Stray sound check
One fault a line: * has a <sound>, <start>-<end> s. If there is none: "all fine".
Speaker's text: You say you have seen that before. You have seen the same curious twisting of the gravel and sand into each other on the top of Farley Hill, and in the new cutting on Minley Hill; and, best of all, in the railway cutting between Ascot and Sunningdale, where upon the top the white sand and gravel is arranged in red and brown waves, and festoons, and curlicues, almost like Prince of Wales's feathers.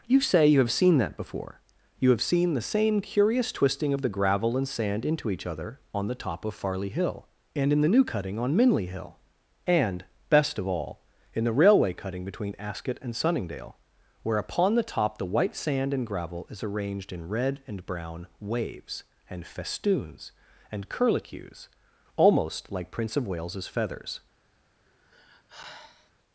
* has a sigh, 24.9-26.1 s